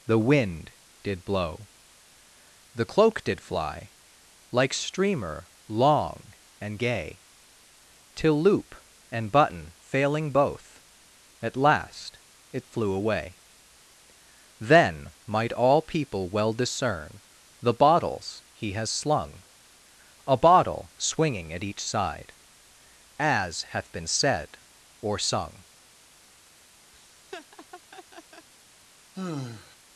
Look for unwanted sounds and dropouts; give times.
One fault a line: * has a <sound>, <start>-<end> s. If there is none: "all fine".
* has a laugh, 26.9-28.5 s
* has a sigh, 29.1-29.8 s